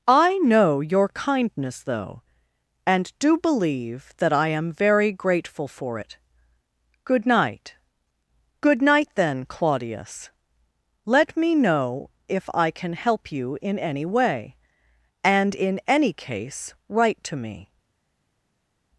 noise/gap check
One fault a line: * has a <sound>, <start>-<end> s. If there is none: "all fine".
all fine